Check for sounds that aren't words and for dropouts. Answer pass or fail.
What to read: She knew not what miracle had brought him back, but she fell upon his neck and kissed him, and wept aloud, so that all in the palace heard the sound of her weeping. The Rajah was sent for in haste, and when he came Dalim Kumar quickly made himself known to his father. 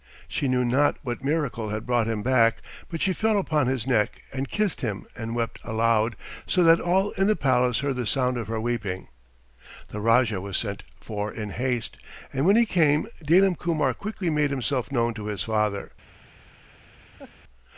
fail